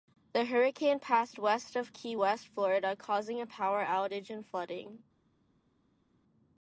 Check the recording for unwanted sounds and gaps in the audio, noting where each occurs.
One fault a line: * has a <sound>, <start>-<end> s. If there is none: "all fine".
all fine